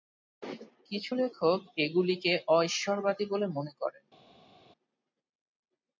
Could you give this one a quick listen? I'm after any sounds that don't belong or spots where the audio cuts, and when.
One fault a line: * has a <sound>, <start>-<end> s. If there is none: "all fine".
all fine